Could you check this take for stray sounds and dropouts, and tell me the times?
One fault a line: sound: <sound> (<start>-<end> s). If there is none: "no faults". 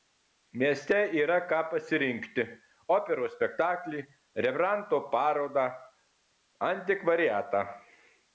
no faults